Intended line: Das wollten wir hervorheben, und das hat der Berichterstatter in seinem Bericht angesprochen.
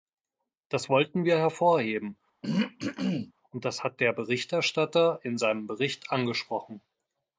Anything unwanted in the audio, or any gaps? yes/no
yes